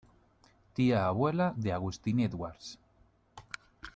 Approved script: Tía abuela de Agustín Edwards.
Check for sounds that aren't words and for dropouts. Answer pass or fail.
pass